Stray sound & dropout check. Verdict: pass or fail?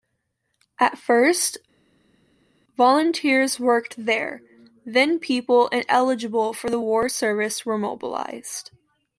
pass